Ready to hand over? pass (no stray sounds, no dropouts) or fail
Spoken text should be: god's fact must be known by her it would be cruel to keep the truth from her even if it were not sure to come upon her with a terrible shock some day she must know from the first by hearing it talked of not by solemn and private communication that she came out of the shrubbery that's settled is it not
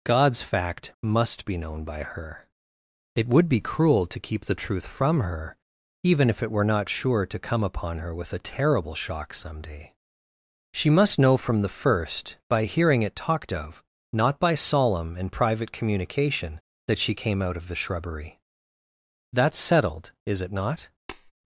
fail